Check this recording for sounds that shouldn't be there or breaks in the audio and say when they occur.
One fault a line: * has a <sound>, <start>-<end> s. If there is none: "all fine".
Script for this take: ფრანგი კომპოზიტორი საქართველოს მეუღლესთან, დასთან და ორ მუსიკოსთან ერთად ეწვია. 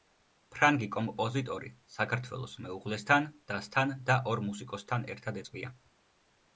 all fine